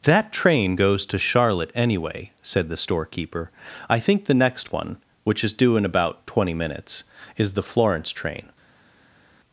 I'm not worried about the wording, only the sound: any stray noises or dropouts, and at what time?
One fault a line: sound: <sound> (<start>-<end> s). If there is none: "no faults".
no faults